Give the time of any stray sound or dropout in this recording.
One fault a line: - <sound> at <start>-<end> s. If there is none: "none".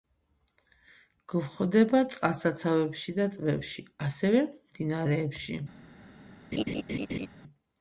- laugh at 6.5-7.3 s